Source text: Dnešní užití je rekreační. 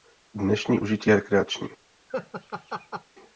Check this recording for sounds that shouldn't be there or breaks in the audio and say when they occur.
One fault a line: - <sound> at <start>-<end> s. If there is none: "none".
- laugh at 2.1-3.0 s